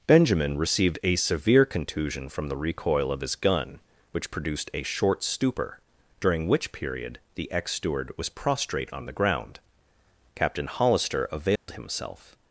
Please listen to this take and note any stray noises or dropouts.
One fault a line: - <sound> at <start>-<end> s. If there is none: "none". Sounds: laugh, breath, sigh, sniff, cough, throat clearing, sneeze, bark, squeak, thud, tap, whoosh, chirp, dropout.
- dropout at 11.6-11.7 s